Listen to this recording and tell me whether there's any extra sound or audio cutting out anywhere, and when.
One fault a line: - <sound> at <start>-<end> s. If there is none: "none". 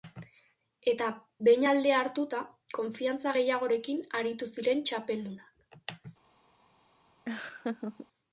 - laugh at 7.3-8.1 s